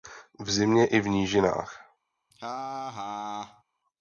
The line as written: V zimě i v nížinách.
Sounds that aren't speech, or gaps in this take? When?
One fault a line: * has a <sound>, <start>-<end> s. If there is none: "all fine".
* has a laugh, 2.3-3.6 s